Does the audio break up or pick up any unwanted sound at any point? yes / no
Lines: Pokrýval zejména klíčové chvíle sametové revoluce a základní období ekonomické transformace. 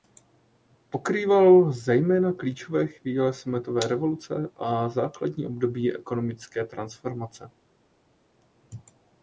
no